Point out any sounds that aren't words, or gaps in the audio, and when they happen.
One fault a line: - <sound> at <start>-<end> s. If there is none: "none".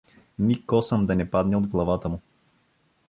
none